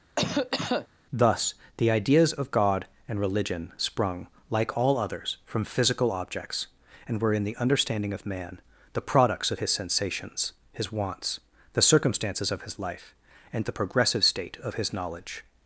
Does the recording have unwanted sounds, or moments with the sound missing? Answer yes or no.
yes